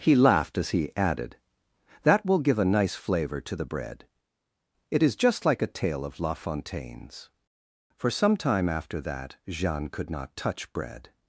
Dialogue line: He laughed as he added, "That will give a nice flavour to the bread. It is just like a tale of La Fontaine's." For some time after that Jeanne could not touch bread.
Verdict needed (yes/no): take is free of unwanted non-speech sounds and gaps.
yes